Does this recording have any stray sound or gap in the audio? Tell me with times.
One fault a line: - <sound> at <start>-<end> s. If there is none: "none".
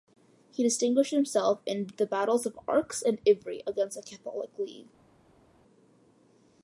none